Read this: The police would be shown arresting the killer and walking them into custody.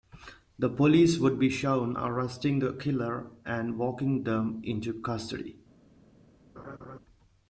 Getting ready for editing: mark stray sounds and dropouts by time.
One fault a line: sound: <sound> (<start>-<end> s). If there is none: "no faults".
sound: laugh (6.6-7.0 s)